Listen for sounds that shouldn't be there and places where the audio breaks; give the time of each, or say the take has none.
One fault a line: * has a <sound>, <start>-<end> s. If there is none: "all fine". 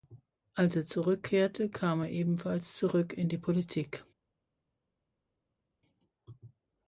all fine